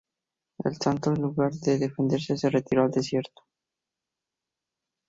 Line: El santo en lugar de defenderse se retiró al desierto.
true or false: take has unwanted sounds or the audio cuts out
false